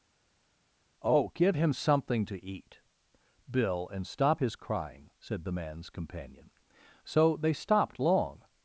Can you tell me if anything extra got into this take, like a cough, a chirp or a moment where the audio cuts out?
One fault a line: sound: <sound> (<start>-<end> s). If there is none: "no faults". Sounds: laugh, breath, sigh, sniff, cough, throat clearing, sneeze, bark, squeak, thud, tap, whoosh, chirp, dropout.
no faults